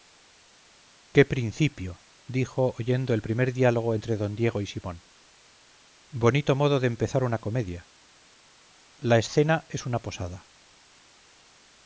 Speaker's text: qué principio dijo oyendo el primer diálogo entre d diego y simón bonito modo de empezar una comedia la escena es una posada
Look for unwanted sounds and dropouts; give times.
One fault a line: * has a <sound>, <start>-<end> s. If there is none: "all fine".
all fine